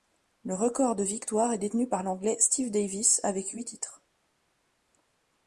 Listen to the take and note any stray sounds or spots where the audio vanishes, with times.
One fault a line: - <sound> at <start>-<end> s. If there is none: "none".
none